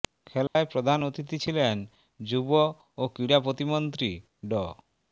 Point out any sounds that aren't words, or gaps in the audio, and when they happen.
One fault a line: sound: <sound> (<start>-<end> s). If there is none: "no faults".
sound: dropout (0.5-0.6 s)